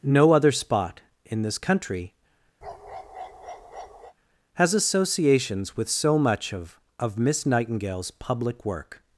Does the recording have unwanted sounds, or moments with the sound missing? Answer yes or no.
yes